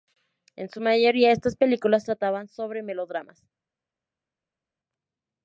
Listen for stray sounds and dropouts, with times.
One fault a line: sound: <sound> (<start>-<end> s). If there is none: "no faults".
no faults